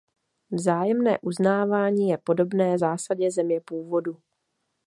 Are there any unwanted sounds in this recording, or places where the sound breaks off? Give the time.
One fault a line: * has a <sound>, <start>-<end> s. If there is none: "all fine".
all fine